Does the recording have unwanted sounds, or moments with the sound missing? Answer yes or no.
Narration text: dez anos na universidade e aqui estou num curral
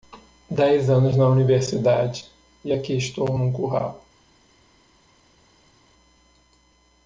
no